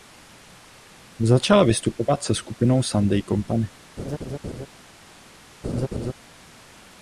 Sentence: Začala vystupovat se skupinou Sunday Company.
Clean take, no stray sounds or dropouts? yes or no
no